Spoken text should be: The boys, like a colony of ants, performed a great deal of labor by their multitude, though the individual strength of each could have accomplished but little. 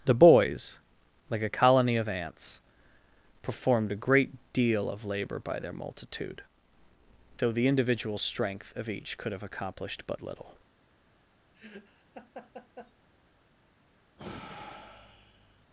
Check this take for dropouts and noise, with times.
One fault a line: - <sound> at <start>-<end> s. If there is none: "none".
- laugh at 11.5-12.9 s
- sigh at 14.2-15.7 s